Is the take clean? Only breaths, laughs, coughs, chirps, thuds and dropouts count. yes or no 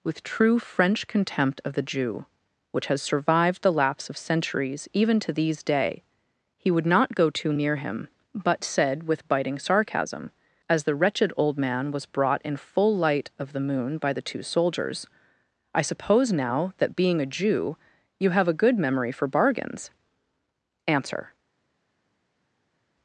yes